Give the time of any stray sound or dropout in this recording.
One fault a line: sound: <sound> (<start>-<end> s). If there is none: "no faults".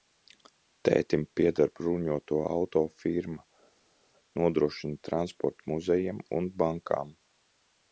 no faults